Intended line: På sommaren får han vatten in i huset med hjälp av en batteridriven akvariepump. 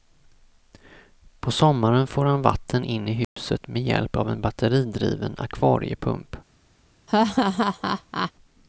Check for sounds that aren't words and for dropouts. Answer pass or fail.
fail